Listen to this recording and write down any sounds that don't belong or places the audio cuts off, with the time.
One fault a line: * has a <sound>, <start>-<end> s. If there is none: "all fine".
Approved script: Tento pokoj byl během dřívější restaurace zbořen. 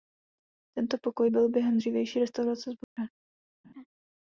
* has a dropout, 2.8-3.0 s
* has a laugh, 3.6-3.9 s